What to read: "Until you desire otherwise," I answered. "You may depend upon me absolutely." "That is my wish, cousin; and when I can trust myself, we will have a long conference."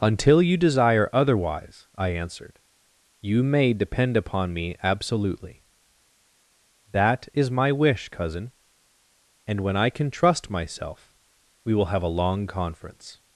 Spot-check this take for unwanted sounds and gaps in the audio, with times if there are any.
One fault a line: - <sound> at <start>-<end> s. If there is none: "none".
none